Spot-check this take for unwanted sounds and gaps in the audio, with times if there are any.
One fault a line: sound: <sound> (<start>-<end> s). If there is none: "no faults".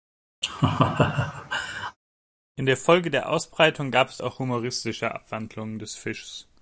sound: laugh (0.4-2.0 s)